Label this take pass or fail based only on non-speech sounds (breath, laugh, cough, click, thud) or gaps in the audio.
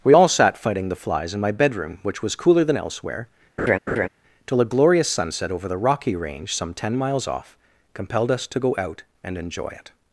fail